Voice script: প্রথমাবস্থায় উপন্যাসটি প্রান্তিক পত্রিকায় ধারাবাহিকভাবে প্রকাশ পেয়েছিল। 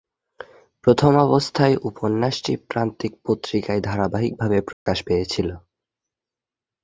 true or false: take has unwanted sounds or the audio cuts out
true